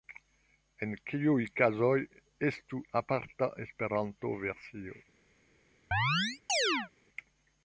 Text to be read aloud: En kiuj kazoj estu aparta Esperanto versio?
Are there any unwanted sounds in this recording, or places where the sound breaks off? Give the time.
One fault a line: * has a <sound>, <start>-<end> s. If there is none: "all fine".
* has a chirp, 5.9-6.9 s